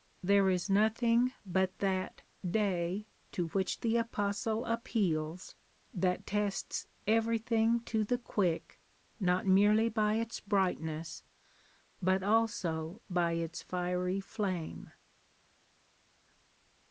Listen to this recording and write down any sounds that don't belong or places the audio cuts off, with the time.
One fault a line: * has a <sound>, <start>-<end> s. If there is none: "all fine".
all fine